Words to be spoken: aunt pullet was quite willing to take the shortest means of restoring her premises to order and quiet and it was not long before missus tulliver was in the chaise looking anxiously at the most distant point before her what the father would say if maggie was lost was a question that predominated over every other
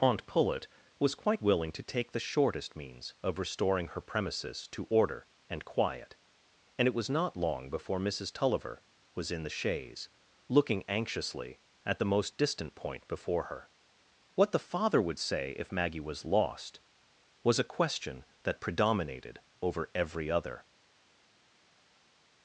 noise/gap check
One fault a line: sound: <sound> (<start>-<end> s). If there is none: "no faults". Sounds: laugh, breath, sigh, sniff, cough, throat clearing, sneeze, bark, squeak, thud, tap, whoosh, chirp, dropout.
no faults